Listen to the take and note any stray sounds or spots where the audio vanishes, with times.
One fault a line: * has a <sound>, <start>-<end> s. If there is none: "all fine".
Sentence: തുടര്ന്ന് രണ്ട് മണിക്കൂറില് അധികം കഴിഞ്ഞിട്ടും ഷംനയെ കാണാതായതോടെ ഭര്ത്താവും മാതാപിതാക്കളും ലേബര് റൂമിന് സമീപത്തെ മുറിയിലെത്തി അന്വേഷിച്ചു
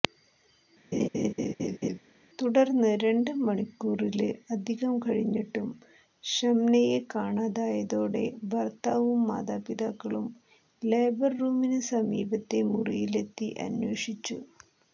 * has a laugh, 0.9-2.0 s